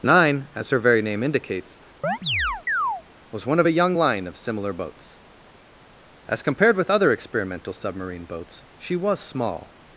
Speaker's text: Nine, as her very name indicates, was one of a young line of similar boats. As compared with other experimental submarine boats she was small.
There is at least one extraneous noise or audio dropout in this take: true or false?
true